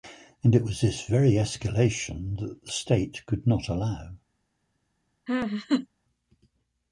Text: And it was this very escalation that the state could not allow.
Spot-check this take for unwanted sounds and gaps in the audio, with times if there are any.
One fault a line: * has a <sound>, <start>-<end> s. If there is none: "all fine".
* has a laugh, 5.3-5.9 s